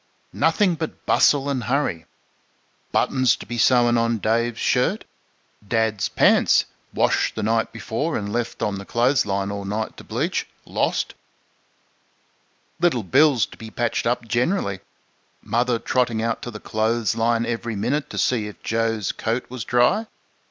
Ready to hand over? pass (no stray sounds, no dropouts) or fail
pass